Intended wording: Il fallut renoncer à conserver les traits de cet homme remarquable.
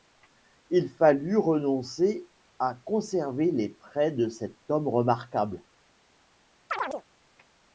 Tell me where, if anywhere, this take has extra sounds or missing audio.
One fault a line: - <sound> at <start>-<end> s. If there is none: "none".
- chirp at 6.7-7.0 s